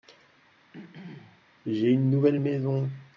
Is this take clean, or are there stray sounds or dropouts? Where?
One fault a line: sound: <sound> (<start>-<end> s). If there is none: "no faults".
sound: throat clearing (0.7-1.4 s)